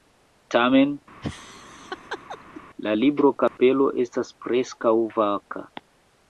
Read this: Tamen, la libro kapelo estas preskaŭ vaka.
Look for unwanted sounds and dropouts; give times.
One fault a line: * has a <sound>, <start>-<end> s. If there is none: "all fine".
* has a laugh, 1.2-2.6 s
* has a dropout, 3.5-3.6 s